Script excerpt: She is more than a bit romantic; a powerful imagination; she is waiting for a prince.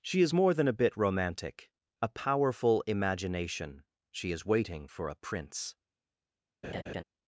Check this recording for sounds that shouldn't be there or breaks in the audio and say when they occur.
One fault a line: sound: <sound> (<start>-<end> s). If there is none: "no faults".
sound: laugh (6.6-7.0 s)